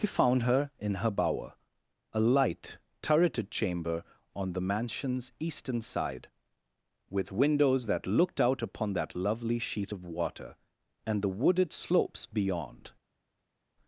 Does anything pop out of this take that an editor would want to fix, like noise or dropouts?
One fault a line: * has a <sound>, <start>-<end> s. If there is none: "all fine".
all fine